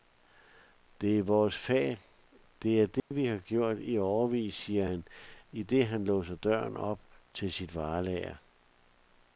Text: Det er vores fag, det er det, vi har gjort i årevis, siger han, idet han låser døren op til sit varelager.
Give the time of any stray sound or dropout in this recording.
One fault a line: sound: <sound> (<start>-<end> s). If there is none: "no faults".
sound: dropout (3.0-3.1 s)